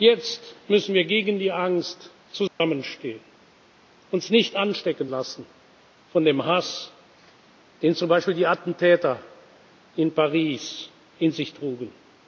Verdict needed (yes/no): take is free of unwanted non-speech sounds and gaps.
no